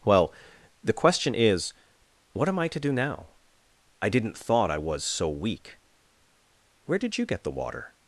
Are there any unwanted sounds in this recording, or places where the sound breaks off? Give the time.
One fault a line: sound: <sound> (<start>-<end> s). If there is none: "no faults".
no faults